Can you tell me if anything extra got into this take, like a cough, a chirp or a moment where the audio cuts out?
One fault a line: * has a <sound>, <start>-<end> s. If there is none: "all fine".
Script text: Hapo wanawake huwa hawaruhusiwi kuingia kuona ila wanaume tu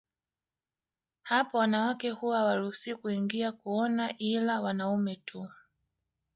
all fine